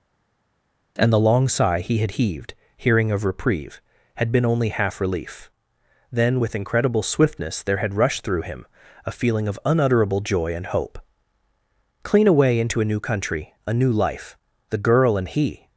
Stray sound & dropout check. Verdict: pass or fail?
pass